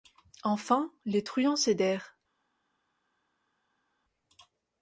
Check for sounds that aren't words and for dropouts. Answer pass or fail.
pass